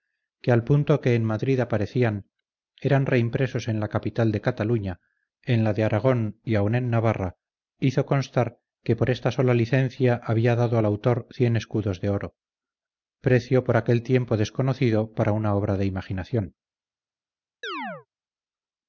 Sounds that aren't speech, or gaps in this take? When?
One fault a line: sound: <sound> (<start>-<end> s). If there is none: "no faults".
sound: chirp (17.6-18.1 s)